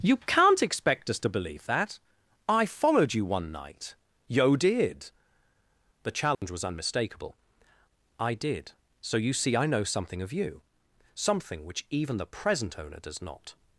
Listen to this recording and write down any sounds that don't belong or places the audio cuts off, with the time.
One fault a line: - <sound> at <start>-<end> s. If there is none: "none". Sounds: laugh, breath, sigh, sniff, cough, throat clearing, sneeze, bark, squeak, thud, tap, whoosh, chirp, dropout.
- dropout at 6.3-6.4 s